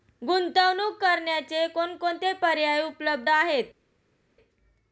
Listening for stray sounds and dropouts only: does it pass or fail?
pass